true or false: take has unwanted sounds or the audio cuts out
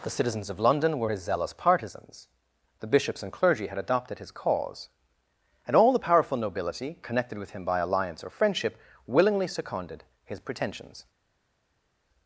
false